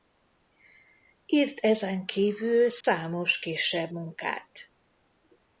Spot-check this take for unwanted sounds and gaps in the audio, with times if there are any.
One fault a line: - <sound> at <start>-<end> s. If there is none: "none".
- dropout at 2.8-2.8 s